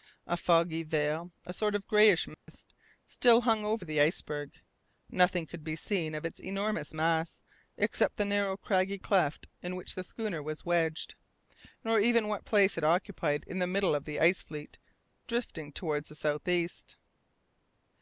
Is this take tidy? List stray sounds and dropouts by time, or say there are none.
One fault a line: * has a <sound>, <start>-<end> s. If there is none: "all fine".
* has a dropout, 2.3-2.5 s